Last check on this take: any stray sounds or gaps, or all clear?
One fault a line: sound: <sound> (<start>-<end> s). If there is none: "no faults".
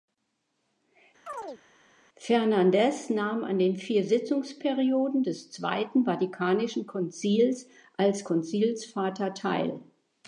sound: chirp (1.3-1.6 s)